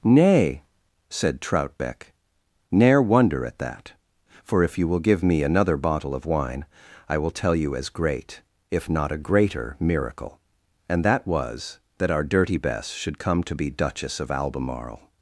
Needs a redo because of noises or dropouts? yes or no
no